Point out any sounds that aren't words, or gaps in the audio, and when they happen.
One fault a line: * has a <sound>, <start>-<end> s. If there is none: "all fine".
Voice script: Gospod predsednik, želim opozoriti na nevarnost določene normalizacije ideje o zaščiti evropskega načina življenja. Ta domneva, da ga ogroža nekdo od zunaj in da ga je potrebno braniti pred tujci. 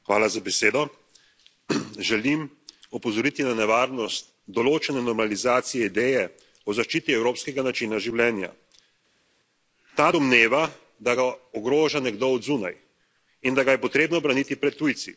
all fine